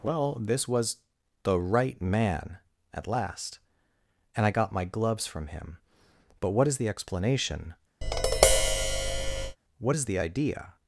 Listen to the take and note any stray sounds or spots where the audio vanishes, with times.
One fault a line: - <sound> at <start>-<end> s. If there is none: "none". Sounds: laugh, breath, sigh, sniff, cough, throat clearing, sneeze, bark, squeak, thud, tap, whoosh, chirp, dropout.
- tap at 8.0-9.6 s